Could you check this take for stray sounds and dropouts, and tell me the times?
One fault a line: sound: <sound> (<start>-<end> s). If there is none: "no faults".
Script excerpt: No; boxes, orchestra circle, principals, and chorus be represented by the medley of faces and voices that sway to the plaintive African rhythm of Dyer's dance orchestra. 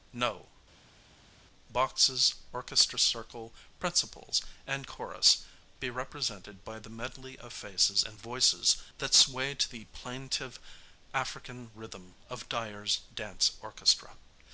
no faults